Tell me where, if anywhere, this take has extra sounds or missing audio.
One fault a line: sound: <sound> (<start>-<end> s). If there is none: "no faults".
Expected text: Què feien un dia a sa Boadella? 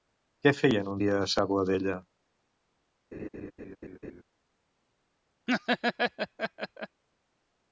sound: laugh (3.1-4.2 s)
sound: laugh (5.5-7.0 s)